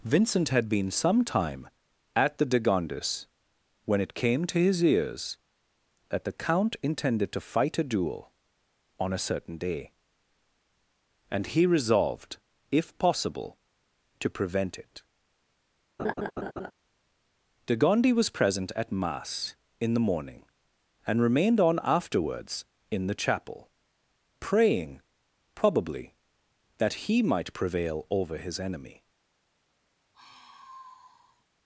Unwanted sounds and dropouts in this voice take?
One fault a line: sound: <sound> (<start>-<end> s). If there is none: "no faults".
sound: laugh (16.0-16.7 s)
sound: sigh (30.1-31.4 s)